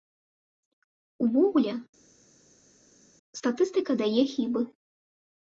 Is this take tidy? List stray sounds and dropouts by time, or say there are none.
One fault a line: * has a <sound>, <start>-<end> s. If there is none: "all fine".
all fine